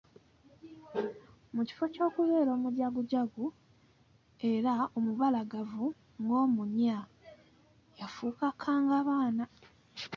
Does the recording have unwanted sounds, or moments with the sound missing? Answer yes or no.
no